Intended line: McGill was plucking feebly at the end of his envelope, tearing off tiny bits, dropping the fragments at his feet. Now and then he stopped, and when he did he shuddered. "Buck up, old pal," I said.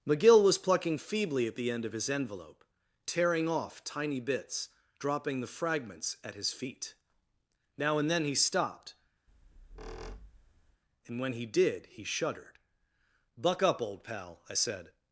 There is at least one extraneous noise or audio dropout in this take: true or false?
true